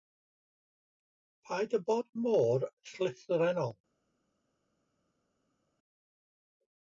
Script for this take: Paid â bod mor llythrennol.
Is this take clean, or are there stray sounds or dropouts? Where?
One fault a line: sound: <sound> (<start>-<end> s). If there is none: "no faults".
no faults